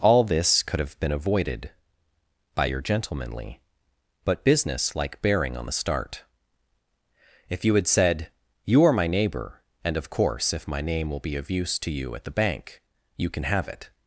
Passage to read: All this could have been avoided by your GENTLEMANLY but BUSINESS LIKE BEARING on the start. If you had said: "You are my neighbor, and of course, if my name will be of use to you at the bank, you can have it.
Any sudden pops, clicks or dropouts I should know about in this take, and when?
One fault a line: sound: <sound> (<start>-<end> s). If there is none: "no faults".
no faults